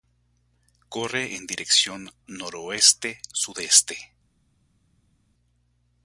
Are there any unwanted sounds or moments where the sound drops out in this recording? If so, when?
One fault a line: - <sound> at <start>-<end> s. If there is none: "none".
none